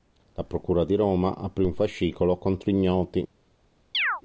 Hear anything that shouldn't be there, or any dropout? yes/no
yes